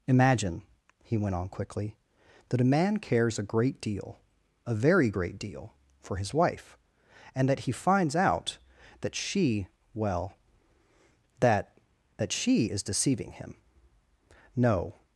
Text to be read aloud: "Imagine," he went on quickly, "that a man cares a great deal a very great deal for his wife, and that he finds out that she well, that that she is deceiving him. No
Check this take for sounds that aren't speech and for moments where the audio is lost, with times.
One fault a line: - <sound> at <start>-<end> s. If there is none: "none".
none